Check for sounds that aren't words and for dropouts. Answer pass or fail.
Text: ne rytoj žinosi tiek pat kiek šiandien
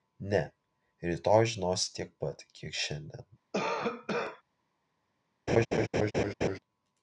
fail